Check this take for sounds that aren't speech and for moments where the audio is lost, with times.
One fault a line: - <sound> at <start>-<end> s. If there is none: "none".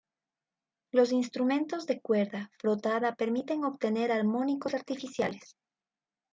none